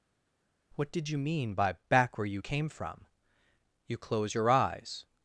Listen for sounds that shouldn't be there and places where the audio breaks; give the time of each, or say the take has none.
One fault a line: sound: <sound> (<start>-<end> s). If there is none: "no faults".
no faults